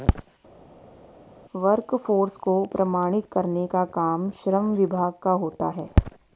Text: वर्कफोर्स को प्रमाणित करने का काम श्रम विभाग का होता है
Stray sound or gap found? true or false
false